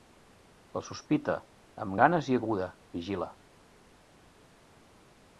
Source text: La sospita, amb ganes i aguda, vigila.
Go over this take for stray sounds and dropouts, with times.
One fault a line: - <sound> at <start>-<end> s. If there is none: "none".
none